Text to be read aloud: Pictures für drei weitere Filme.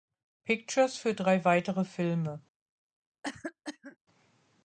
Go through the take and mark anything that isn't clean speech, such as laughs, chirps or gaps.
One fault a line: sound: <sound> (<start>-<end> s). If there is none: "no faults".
sound: cough (3.2-4.0 s)